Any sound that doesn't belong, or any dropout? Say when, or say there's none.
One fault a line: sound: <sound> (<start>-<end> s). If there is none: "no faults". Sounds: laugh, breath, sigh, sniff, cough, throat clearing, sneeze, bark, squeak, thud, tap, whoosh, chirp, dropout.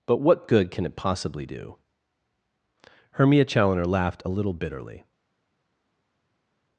no faults